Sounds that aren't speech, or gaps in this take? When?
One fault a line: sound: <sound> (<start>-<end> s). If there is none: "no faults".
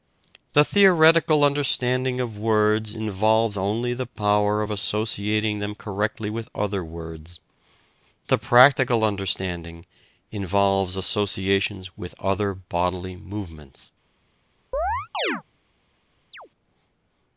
sound: chirp (14.7-15.4 s)
sound: chirp (16.3-16.5 s)